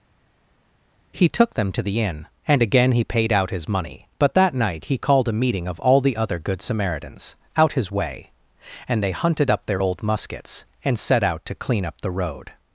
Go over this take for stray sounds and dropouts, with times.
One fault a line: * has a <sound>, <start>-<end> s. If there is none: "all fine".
all fine